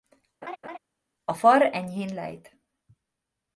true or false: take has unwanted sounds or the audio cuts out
true